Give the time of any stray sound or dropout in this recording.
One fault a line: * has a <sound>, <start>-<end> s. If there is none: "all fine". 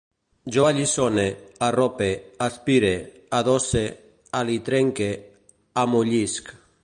all fine